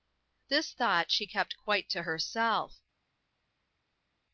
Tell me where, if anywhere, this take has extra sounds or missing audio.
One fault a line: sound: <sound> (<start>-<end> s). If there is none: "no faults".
no faults